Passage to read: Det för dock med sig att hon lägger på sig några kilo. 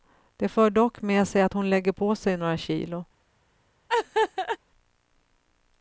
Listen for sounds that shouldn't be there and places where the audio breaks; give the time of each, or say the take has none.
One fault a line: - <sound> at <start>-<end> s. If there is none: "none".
- laugh at 3.9-4.6 s